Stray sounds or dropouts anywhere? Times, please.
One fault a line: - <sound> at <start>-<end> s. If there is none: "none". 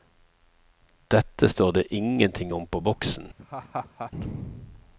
- laugh at 3.4-4.1 s